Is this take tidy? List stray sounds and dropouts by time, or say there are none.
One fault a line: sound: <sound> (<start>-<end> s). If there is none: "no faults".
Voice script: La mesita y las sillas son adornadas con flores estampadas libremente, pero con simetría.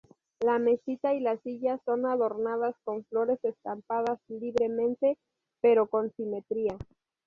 no faults